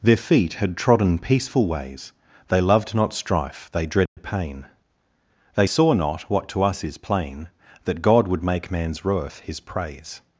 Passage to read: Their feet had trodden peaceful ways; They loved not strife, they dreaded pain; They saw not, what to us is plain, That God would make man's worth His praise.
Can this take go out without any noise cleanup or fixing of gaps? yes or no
no